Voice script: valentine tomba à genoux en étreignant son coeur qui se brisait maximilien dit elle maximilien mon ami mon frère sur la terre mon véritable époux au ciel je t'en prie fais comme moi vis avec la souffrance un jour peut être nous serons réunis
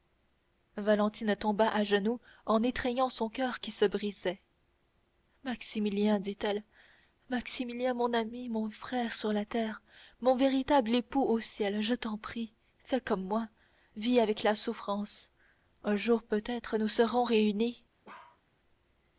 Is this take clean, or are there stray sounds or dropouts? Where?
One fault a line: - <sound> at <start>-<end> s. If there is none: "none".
- bark at 18.0-18.4 s